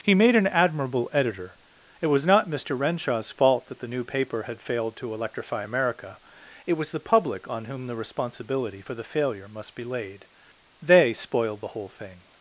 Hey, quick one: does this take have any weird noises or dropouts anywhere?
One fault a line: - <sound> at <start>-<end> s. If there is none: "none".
none